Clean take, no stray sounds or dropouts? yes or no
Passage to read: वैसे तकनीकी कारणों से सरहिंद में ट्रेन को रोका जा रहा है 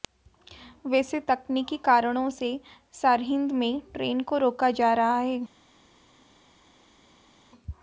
yes